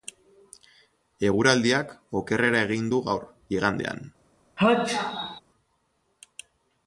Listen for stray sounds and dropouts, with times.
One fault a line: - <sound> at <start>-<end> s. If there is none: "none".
- sneeze at 4.6-5.4 s